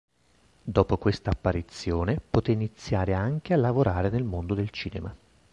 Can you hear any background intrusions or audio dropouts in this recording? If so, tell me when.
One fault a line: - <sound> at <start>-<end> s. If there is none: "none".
none